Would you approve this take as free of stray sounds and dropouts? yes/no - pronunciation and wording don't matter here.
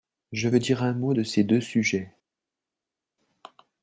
yes